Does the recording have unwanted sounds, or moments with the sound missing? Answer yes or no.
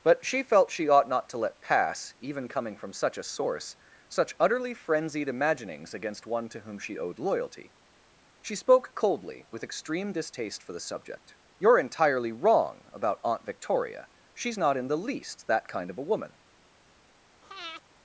yes